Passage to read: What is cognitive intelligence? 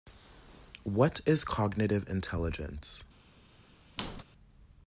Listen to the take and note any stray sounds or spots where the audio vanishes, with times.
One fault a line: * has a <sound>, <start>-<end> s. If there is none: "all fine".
* has a squeak, 4.0-4.2 s